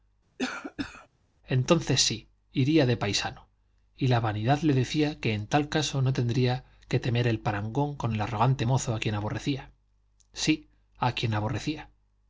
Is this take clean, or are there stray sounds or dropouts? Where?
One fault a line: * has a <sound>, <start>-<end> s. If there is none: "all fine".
* has a cough, 0.4-1.1 s